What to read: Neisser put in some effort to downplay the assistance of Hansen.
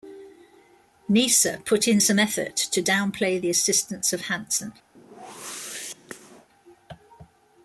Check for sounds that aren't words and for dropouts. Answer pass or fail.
fail